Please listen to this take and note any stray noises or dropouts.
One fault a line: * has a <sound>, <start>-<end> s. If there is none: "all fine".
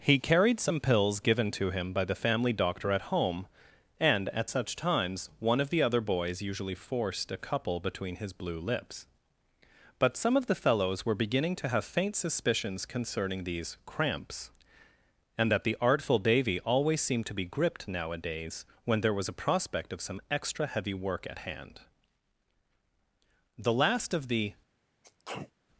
* has a sneeze, 25.0-25.5 s